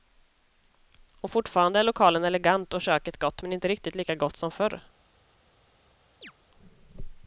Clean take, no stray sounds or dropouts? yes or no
no